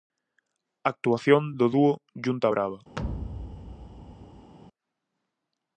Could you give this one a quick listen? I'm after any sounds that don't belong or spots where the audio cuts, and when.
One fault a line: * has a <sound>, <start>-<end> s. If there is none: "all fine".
* has a thud, 3.0-4.5 s